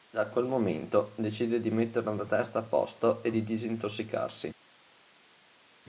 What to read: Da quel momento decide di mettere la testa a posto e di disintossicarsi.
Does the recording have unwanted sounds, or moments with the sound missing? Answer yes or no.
no